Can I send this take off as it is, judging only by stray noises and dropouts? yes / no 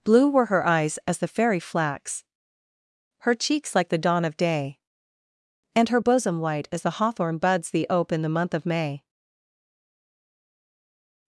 yes